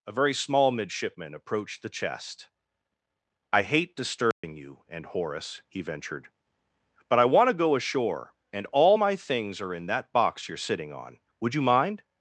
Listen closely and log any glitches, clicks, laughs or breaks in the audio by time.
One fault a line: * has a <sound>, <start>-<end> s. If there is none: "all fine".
* has a dropout, 4.3-4.4 s